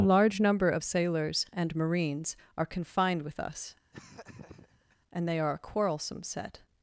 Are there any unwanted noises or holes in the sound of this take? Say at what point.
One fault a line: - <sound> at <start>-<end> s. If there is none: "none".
- laugh at 3.9-5.0 s